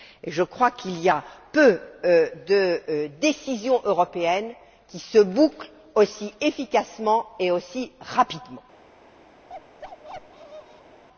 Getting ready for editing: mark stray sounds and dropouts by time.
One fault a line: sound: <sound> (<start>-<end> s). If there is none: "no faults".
sound: bark (9.5-11.0 s)